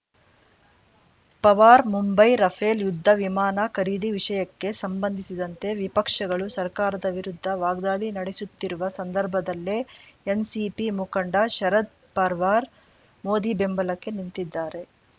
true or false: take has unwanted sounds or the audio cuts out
false